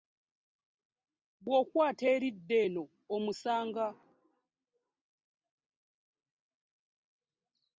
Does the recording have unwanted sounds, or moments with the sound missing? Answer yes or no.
no